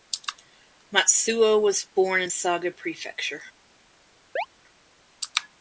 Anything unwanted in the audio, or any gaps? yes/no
yes